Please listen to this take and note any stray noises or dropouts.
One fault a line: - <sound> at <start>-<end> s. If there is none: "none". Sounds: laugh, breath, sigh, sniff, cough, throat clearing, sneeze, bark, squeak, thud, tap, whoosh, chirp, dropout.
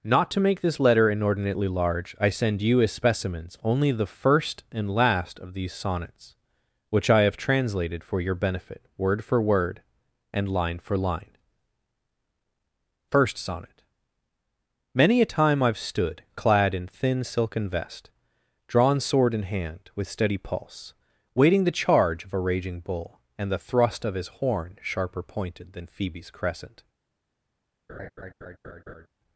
- laugh at 27.9-29.1 s